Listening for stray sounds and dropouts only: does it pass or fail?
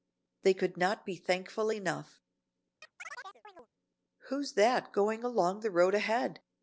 fail